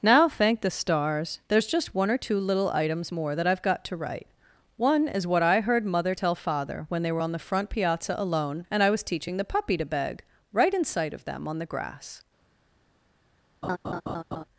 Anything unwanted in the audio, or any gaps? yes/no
yes